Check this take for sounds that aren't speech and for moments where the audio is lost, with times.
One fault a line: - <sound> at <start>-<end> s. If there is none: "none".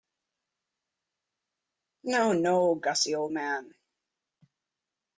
none